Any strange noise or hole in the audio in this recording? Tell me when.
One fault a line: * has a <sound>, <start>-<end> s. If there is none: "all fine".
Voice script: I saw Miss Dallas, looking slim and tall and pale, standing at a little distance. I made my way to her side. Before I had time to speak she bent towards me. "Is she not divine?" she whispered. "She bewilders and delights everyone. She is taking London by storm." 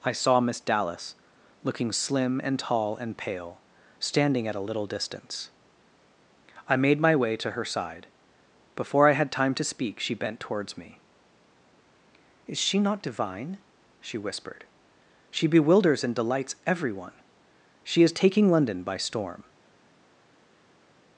all fine